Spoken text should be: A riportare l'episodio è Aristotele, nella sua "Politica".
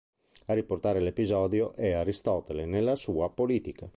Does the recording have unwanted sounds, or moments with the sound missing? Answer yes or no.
no